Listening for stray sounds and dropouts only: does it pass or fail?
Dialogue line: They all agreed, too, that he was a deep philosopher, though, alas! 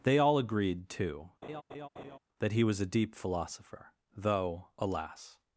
fail